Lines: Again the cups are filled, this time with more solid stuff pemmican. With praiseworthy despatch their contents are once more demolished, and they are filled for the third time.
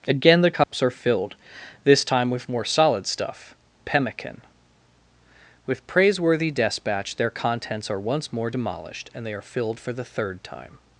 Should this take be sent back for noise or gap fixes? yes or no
yes